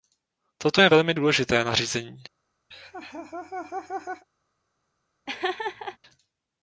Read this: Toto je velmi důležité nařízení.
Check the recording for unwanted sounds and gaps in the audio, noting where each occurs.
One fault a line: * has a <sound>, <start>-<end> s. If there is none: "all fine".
* has a laugh, 2.7-4.2 s
* has a laugh, 5.3-6.0 s